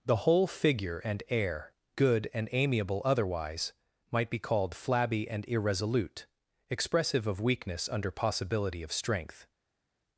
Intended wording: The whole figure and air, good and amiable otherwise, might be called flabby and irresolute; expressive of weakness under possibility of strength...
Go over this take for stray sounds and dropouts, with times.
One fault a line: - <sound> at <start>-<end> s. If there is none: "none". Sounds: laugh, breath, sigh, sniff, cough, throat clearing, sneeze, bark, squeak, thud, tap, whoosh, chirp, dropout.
none